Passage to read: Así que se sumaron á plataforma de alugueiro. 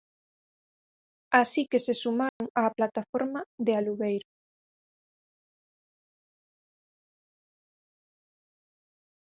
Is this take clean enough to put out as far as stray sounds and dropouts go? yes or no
no